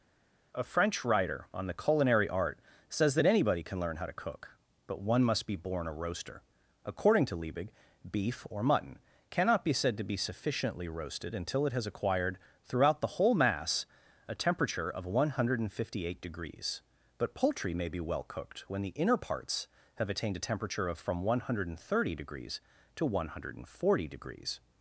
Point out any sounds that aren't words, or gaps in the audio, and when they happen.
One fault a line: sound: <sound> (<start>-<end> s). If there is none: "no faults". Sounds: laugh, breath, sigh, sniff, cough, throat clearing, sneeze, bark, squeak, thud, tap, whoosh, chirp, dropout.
no faults